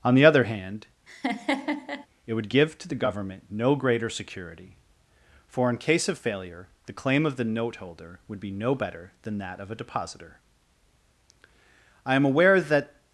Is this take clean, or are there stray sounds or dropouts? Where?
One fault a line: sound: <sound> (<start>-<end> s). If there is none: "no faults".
sound: laugh (1.1-2.1 s)